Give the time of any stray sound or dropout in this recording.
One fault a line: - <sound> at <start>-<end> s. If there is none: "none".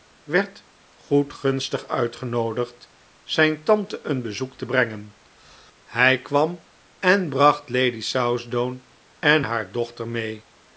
none